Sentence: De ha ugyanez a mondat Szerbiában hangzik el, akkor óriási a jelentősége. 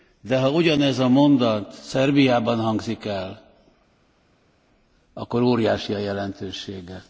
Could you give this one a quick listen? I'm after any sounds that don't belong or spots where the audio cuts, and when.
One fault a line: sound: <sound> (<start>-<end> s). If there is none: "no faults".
no faults